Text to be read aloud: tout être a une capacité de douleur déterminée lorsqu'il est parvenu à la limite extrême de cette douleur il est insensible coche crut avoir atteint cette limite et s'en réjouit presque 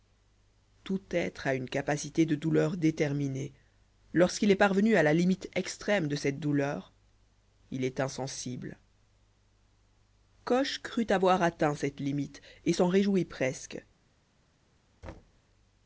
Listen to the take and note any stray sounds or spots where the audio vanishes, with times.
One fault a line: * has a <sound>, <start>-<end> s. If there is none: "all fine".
* has a thud, 15.0-15.4 s